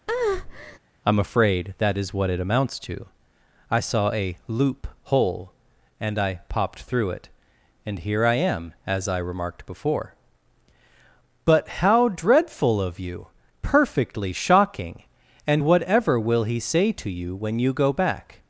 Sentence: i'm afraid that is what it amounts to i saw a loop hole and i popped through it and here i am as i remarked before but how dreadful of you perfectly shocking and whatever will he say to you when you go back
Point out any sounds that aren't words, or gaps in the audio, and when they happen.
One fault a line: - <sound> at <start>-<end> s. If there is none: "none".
- breath at 0.1-0.8 s